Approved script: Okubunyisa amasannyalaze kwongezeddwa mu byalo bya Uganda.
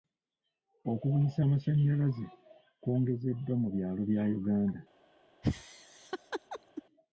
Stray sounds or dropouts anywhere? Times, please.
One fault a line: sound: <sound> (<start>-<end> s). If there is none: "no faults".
sound: laugh (5.4-6.8 s)